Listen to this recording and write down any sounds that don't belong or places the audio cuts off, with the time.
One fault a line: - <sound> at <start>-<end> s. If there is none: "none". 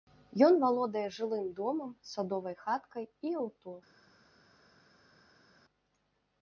none